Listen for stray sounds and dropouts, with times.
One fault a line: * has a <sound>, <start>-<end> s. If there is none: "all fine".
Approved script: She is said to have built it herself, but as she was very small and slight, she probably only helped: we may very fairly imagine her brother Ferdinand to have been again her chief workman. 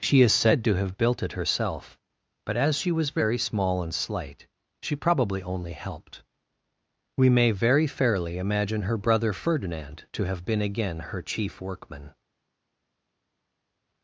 all fine